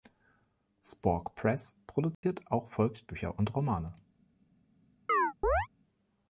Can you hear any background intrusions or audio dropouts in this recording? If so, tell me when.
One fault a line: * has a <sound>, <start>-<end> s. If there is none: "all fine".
* has a dropout, 2.1-2.2 s
* has a chirp, 5.1-5.7 s